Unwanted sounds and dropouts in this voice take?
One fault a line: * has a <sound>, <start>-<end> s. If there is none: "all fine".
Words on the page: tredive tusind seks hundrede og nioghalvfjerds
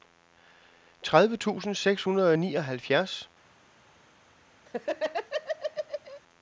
* has a laugh, 4.7-6.2 s